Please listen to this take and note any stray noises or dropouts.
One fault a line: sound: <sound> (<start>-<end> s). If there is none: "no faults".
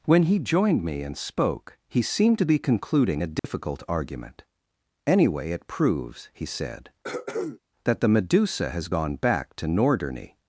sound: dropout (3.4-3.4 s)
sound: throat clearing (7.0-7.6 s)